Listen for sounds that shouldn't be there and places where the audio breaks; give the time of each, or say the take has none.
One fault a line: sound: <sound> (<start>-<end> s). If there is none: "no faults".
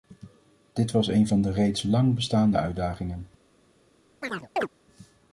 sound: chirp (4.2-4.7 s)